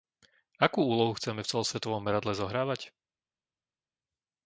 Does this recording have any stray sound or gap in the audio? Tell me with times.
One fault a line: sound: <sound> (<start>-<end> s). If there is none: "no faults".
no faults